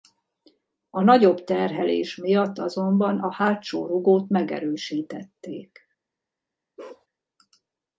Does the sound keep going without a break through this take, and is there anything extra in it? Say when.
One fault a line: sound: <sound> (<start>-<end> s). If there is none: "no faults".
sound: bark (6.8-7.1 s)